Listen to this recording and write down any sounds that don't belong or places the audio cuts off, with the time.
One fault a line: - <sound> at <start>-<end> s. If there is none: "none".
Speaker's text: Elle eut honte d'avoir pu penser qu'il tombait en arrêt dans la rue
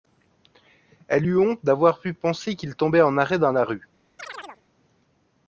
- chirp at 4.2-4.6 s